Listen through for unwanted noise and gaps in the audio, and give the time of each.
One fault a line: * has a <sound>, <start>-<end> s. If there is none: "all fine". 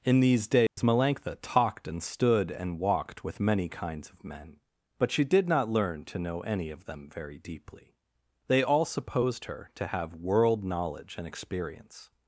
* has a dropout, 0.7-0.8 s